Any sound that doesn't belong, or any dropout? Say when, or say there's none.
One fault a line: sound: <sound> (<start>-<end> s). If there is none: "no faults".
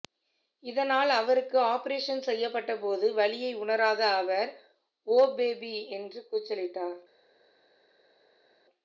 no faults